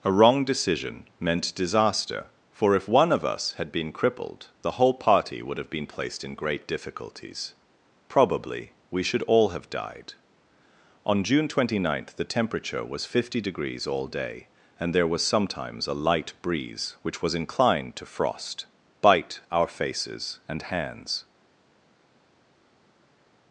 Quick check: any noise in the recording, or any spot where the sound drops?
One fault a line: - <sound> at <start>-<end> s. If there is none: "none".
none